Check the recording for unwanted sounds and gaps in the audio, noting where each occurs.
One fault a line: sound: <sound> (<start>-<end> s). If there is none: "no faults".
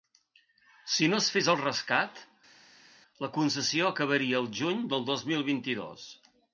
no faults